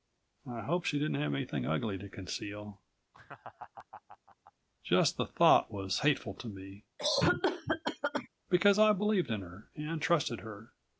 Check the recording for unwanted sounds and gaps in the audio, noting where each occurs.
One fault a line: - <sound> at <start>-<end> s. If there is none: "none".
- laugh at 3.1-4.5 s
- cough at 7.0-8.3 s